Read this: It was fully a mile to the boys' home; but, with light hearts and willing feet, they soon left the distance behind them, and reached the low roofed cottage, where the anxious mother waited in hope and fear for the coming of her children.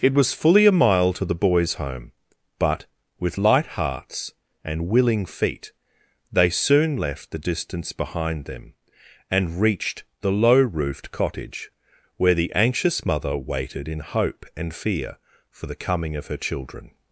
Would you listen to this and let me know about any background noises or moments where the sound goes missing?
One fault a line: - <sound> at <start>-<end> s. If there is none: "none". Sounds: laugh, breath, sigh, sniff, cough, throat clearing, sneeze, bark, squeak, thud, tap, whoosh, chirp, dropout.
none